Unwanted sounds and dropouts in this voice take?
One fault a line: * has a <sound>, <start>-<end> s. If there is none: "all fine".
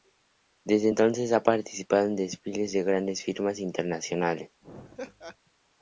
* has a laugh, 4.6-5.4 s